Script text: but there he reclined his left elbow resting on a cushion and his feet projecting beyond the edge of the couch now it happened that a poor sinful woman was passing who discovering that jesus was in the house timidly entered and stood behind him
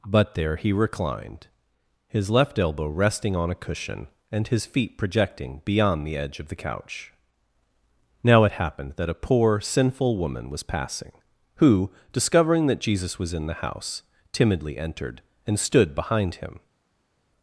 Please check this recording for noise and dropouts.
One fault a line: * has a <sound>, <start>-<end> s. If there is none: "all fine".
all fine